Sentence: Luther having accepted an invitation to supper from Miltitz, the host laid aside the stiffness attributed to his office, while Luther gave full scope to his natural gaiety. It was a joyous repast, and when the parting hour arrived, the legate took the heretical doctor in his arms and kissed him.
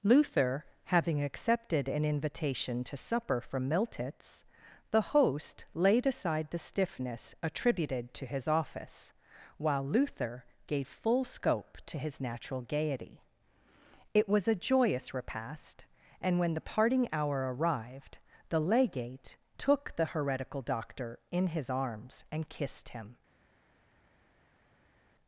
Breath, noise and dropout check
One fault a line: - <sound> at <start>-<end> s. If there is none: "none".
none